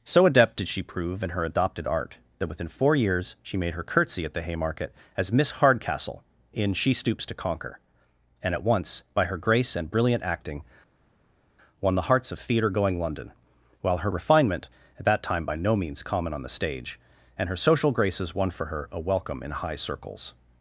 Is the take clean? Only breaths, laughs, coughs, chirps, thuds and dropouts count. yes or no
yes